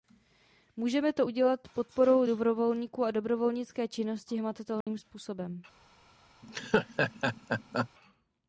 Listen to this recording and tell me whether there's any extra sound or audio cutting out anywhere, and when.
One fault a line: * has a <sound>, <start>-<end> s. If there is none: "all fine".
* has a dropout, 4.8-4.9 s
* has a laugh, 6.4-7.9 s